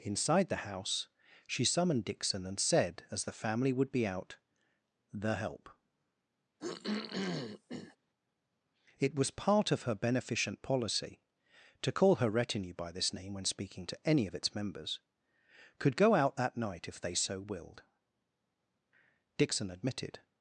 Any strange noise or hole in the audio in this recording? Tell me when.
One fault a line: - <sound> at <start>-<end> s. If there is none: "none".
- throat clearing at 6.6-8.0 s